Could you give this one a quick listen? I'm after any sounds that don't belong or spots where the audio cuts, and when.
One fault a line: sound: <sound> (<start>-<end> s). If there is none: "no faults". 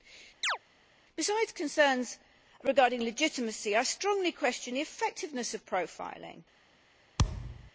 sound: chirp (0.4-0.6 s)
sound: thud (7.2-7.7 s)